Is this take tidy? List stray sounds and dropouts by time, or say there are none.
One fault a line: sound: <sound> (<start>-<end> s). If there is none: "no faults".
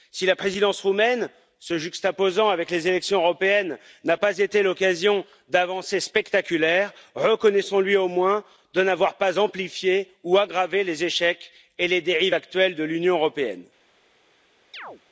sound: chirp (14.7-15.0 s)